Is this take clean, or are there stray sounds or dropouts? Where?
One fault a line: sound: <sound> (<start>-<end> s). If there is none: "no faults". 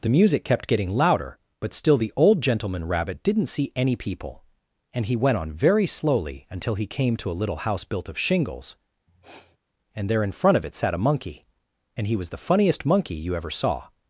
sound: sniff (9.1-9.6 s)